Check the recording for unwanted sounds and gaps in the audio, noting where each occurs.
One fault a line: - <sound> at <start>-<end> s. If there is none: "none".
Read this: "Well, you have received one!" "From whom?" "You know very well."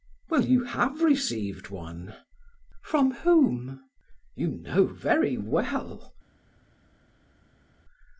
none